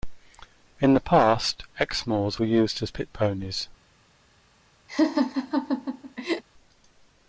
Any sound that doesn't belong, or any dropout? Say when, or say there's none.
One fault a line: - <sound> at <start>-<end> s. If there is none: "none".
- laugh at 4.9-6.4 s